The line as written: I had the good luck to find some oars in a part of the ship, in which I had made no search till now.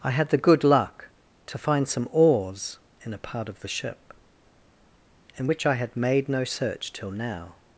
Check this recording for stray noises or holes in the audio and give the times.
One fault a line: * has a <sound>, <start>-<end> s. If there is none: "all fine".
all fine